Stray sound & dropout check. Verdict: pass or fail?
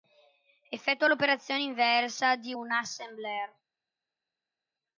pass